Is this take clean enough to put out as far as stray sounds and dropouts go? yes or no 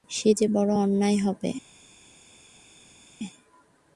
yes